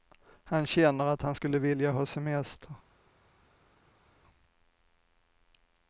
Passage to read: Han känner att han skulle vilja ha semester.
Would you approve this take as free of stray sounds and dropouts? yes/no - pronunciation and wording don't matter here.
yes